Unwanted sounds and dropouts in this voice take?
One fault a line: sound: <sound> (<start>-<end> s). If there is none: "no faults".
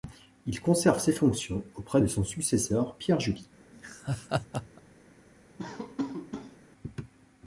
sound: laugh (3.7-4.8 s)
sound: laugh (5.6-6.6 s)